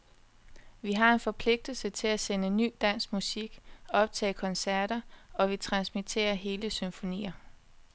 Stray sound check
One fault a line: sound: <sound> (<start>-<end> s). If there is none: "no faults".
no faults